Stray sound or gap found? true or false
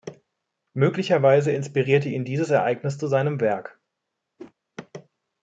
true